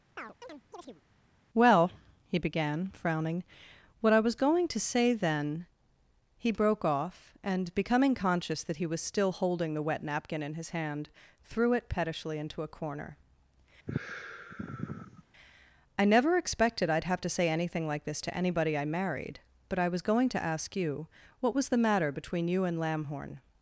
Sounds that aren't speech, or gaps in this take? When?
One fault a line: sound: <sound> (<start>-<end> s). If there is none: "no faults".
sound: chirp (0.2-1.0 s)
sound: sigh (13.9-15.2 s)